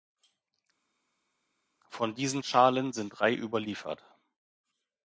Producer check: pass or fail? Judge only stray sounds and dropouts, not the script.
pass